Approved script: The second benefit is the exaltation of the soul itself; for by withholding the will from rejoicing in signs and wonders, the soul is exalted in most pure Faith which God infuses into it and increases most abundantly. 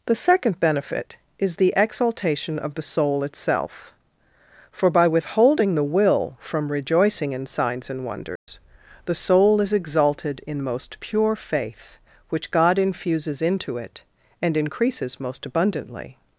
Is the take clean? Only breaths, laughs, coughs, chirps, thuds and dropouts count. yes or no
no